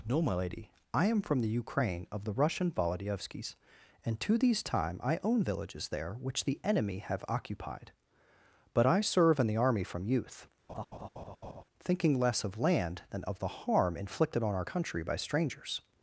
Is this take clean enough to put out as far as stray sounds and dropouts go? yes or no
no